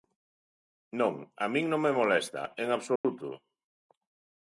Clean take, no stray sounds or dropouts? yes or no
no